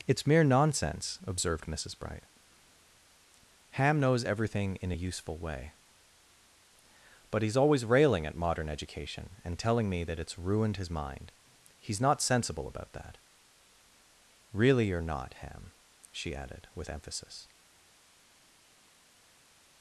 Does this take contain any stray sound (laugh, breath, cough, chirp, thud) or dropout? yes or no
no